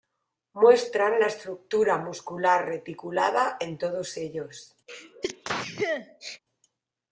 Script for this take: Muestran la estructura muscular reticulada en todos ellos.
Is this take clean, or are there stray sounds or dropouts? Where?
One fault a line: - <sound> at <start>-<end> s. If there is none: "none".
- sneeze at 4.9-6.4 s